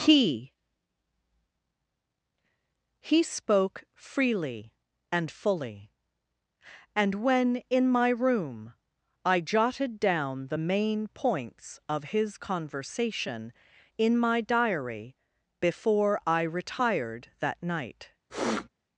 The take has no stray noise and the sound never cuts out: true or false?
false